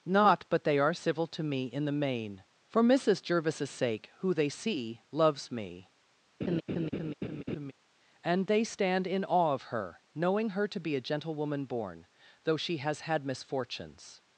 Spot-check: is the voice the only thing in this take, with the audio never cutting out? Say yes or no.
no